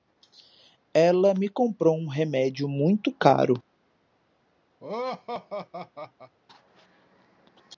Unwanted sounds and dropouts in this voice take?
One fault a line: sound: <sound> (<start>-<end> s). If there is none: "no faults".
sound: laugh (4.8-6.3 s)